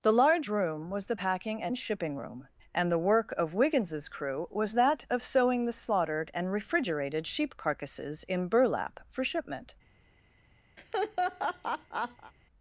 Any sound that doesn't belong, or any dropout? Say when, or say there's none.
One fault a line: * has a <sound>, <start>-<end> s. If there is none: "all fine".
* has a laugh, 10.8-12.3 s